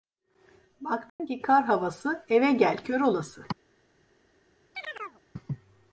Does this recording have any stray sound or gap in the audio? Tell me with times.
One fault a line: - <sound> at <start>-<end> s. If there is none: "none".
- dropout at 1.1-1.2 s
- chirp at 4.7-5.2 s